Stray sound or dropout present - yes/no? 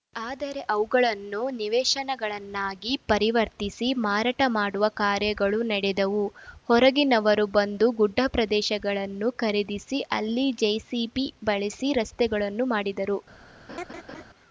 yes